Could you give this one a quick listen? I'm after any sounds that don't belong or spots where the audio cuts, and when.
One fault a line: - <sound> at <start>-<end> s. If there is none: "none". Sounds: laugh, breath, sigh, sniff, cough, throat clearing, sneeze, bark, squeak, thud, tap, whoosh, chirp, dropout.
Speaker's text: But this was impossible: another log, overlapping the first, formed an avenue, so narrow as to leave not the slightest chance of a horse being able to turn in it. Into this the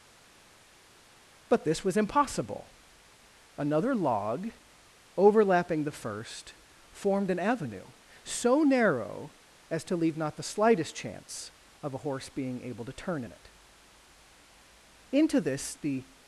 none